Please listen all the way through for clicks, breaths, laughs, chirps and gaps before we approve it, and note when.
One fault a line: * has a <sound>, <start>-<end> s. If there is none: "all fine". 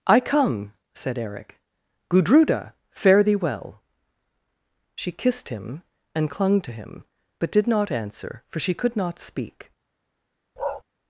* has a bark, 10.6-10.8 s